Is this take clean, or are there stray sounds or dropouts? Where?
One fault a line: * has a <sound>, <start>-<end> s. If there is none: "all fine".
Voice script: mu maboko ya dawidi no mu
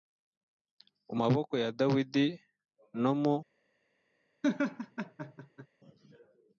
* has a laugh, 4.4-5.7 s